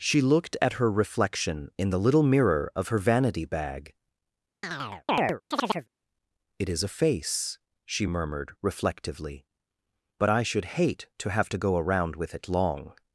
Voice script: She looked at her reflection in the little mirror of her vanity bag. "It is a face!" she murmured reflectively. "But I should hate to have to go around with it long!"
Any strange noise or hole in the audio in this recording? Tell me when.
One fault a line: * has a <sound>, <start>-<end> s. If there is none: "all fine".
* has a chirp, 4.6-5.9 s